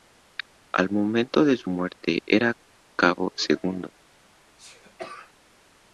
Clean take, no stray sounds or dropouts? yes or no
no